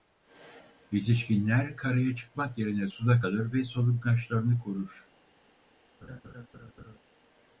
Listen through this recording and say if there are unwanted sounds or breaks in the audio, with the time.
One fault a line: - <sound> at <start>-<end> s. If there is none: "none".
- laugh at 6.0-7.0 s